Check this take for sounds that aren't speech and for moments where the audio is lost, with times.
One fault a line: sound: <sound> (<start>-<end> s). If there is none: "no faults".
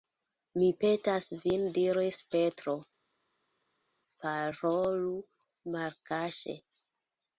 no faults